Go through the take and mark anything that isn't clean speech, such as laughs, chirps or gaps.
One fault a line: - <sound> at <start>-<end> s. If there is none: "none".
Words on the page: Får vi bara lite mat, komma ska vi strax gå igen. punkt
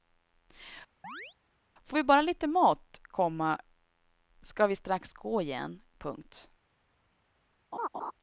- chirp at 1.0-1.4 s
- laugh at 7.7-8.1 s